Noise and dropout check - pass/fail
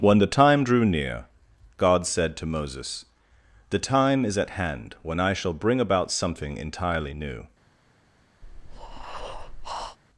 fail